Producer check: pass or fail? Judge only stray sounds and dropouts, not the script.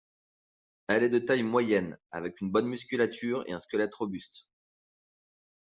pass